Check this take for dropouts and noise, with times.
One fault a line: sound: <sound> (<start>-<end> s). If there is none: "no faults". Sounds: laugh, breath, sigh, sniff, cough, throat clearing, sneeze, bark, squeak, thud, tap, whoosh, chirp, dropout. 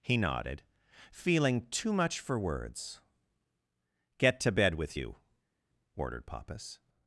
no faults